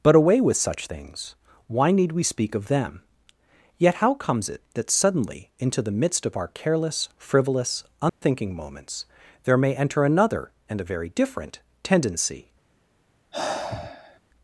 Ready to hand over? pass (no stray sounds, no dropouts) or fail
fail